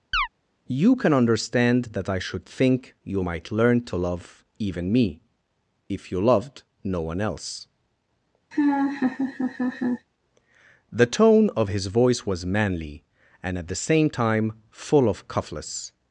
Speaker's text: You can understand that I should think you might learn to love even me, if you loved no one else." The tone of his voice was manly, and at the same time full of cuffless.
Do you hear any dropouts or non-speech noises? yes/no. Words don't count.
yes